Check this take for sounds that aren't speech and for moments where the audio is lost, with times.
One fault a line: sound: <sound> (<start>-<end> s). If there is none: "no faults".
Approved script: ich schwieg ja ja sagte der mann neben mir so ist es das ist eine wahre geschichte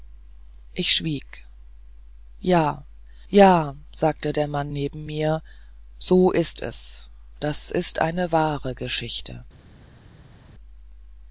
no faults